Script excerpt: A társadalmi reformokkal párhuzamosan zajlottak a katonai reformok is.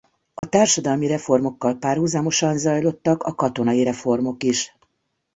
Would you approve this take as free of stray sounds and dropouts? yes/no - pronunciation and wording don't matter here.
no